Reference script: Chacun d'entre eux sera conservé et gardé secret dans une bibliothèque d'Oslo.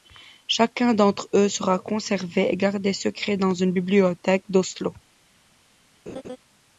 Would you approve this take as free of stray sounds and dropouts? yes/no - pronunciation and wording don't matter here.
no